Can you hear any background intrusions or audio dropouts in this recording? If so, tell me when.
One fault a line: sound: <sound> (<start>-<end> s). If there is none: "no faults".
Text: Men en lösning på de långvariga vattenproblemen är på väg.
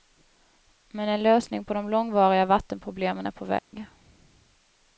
sound: dropout (3.6-3.7 s)